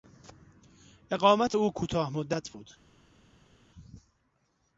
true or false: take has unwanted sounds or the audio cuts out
false